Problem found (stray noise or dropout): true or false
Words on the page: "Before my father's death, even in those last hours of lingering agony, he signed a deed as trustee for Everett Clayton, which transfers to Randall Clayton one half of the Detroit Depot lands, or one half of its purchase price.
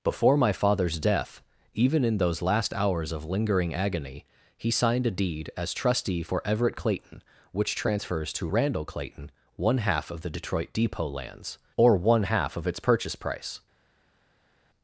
false